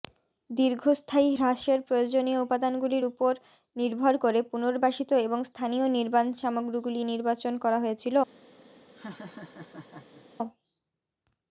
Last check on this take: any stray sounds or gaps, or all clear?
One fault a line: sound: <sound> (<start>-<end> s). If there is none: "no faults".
sound: laugh (8.9-10.2 s)